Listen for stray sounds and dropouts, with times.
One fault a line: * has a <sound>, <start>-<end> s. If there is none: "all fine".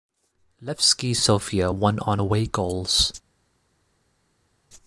all fine